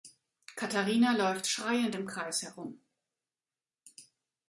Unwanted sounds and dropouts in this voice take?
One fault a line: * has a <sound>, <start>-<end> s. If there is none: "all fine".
all fine